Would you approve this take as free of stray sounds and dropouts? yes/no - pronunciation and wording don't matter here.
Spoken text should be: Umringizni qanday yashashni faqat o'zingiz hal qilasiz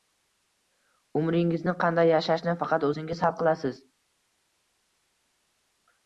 yes